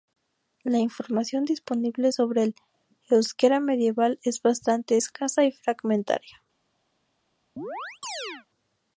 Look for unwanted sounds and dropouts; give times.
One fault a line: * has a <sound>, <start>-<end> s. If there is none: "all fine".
* has a chirp, 7.6-8.5 s